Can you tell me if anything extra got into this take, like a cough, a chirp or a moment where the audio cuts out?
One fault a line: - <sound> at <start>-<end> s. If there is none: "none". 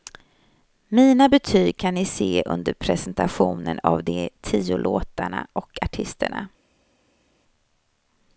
none